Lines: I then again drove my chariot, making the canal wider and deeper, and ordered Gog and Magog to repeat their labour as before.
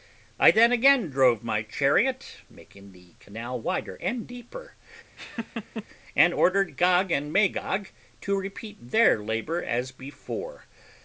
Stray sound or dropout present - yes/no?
yes